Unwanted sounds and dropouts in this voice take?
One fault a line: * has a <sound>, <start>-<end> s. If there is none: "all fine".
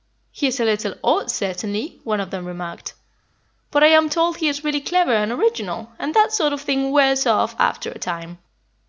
all fine